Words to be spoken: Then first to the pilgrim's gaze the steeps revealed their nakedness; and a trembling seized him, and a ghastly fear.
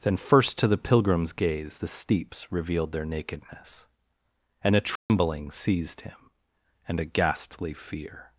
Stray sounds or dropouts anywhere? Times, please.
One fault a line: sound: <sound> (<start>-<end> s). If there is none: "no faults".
sound: dropout (5.0-5.1 s)